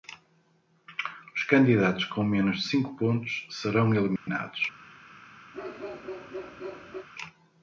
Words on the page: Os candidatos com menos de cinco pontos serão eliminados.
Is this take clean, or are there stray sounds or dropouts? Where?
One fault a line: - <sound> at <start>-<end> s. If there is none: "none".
- dropout at 4.2-4.3 s
- bark at 5.5-7.1 s